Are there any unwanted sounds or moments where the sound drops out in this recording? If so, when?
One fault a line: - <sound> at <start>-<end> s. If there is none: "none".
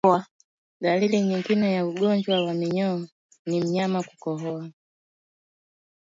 none